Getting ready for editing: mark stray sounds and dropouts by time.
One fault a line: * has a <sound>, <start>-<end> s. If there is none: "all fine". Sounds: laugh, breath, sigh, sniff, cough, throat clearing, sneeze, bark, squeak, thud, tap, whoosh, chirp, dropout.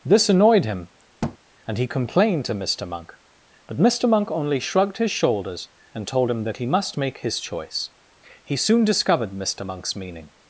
* has a thud, 1.2-1.4 s